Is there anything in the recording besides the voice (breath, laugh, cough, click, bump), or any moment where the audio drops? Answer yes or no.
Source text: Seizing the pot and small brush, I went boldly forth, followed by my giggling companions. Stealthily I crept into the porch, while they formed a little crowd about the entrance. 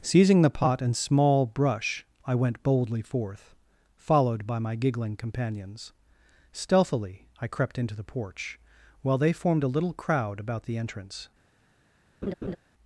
yes